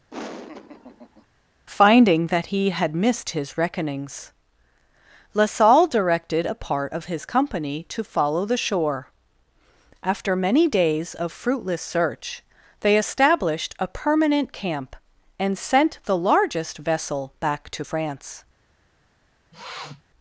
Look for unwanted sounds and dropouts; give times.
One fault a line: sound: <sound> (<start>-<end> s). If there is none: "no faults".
sound: laugh (0.1-1.3 s)
sound: sniff (19.5-20.0 s)